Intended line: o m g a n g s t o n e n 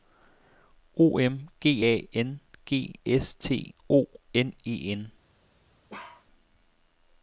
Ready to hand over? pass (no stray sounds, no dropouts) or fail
fail